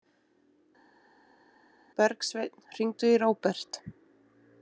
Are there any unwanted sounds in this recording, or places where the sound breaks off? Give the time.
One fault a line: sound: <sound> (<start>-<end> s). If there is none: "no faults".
no faults